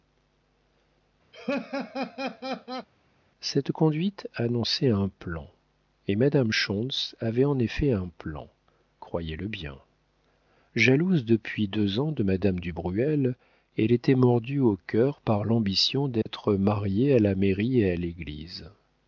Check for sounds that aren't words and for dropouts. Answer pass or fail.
fail